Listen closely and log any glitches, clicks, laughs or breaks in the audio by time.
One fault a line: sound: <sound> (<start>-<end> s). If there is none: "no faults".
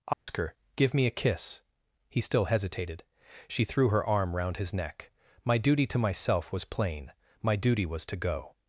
sound: dropout (0.1-0.3 s)